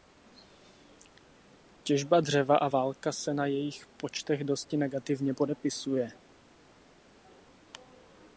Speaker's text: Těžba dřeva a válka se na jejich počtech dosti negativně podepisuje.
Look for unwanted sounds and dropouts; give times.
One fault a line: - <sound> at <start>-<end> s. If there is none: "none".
none